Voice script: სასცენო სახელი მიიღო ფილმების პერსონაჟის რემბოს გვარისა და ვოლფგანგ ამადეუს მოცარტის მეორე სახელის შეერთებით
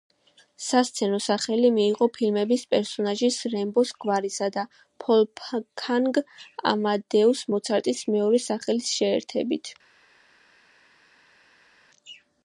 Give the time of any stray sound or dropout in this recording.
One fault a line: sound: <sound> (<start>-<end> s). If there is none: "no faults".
no faults